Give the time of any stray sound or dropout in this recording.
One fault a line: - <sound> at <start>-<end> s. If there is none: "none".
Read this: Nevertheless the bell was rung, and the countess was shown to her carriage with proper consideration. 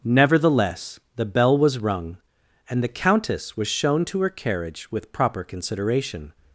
none